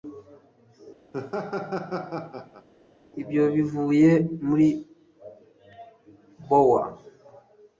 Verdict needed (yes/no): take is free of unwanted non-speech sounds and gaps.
no